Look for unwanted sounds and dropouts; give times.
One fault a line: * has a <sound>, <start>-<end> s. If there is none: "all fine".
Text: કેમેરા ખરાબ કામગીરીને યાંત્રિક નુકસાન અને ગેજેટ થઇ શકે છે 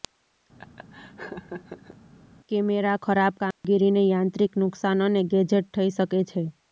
* has a laugh, 0.6-2.0 s
* has a dropout, 3.5-3.6 s